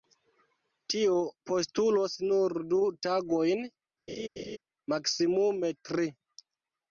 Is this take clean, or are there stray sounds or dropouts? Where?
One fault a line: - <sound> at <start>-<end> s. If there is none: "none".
- laugh at 4.1-4.6 s